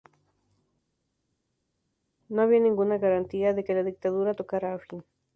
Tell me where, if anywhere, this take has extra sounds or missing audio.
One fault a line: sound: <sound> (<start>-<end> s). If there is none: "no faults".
no faults